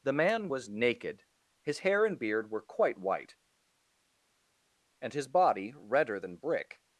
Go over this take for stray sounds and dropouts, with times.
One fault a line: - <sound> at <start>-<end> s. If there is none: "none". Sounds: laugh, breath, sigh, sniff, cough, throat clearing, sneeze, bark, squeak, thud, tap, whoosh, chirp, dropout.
none